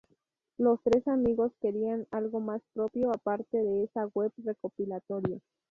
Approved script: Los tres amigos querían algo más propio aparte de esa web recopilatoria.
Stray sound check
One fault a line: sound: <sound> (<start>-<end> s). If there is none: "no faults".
no faults